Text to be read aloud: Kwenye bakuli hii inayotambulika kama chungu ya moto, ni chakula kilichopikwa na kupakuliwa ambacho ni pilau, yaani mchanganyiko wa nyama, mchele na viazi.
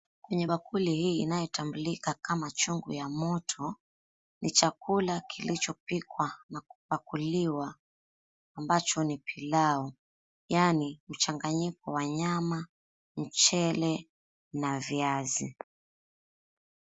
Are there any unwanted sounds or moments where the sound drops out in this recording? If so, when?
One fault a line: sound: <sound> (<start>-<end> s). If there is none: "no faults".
no faults